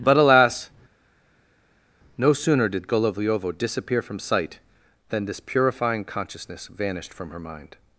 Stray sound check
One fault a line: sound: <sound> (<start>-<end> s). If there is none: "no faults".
no faults